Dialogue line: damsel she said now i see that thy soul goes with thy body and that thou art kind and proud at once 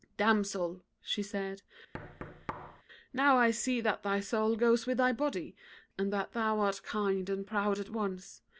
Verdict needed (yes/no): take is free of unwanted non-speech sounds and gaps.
no